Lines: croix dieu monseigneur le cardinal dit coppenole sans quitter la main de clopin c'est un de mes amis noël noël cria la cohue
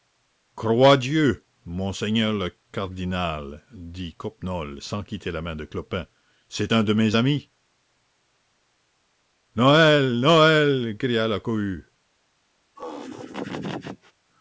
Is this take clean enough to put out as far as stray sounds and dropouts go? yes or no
no